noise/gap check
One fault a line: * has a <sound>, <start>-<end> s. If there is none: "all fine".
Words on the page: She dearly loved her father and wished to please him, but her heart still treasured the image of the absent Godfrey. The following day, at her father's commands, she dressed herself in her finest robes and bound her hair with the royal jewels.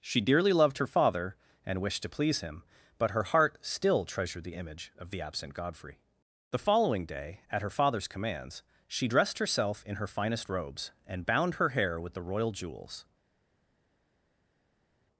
all fine